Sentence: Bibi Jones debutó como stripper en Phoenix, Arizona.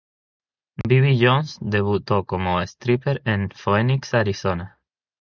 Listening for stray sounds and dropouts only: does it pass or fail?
fail